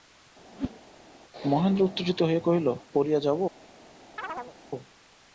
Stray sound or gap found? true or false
true